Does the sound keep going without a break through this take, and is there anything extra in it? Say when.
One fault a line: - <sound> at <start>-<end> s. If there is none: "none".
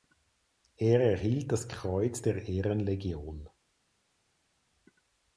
none